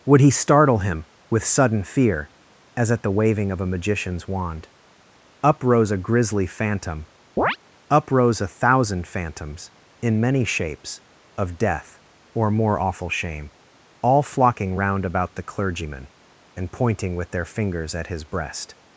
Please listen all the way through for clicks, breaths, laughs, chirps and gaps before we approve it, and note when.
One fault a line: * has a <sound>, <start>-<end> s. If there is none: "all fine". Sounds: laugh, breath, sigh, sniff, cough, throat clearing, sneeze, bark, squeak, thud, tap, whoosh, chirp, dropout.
* has a chirp, 7.4-7.6 s